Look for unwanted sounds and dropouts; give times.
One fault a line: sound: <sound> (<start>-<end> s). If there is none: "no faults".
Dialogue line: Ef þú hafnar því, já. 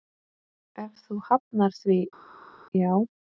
no faults